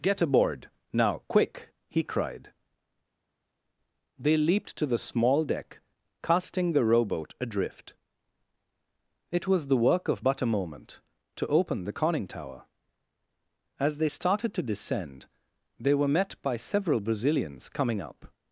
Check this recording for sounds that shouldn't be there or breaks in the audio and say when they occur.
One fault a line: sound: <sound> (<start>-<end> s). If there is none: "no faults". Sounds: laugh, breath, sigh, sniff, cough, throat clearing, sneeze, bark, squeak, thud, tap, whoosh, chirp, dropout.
no faults